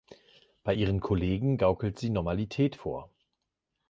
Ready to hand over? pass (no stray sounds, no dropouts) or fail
pass